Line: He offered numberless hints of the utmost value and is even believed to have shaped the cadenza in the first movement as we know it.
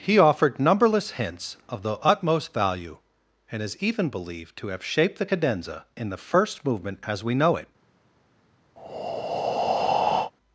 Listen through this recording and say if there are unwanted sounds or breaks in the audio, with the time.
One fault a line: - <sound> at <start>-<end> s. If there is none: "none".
- breath at 8.8-10.3 s